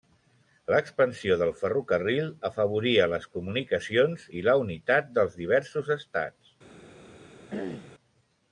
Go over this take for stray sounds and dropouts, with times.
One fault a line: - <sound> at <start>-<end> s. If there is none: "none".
- throat clearing at 7.5-7.9 s